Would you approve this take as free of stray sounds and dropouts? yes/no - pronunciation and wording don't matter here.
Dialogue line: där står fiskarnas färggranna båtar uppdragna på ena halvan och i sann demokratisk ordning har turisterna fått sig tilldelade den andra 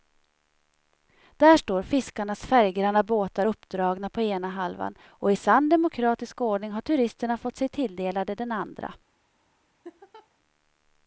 no